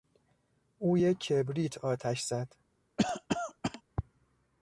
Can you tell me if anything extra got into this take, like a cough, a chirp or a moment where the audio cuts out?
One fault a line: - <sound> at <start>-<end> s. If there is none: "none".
- cough at 3.0-3.8 s